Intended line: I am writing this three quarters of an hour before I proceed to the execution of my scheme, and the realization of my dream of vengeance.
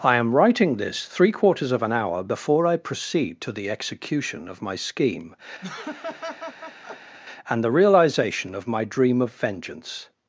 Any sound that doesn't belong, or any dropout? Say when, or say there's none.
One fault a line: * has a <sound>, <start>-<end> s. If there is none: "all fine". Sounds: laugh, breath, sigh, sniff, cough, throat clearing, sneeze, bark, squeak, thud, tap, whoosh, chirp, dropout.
* has a laugh, 5.6-7.2 s